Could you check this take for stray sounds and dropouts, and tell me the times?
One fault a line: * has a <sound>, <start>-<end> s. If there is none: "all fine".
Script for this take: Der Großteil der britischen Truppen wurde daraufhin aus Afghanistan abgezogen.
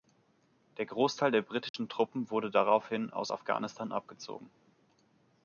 * has a dropout, 1.7-1.7 s